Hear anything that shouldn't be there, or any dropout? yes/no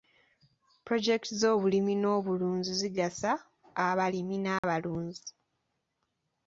yes